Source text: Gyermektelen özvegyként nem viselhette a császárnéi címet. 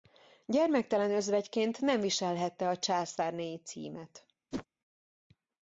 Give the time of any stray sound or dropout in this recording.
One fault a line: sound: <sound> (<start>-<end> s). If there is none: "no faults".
sound: whoosh (4.5-4.7 s)